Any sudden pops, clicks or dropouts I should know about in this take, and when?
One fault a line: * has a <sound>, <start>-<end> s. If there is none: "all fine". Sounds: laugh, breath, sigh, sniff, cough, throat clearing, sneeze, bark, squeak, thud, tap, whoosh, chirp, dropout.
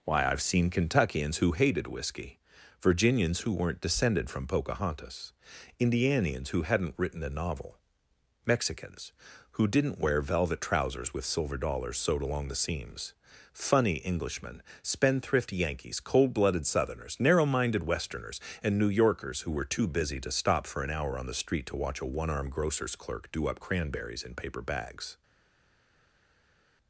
all fine